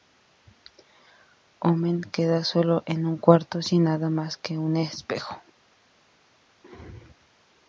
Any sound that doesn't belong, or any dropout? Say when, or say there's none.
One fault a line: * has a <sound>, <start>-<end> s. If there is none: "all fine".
all fine